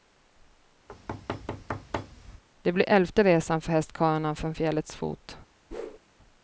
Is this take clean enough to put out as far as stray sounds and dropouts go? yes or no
no